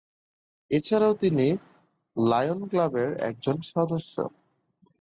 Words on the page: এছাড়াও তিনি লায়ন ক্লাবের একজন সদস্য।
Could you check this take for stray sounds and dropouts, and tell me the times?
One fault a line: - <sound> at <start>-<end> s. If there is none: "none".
none